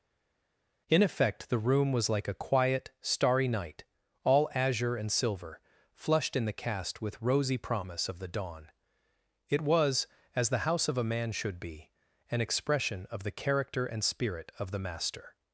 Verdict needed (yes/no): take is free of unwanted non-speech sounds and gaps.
yes